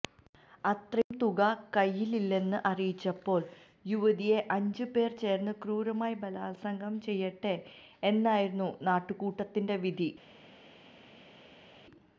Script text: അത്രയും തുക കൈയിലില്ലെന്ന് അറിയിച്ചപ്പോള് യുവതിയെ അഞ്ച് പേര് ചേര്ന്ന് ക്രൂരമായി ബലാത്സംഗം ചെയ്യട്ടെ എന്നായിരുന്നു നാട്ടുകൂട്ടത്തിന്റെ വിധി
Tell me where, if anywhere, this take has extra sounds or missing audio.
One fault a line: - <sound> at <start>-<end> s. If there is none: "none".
none